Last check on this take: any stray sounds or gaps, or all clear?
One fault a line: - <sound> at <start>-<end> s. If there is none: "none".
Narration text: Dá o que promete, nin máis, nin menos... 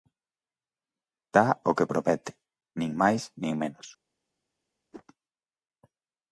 - whoosh at 4.9-5.0 s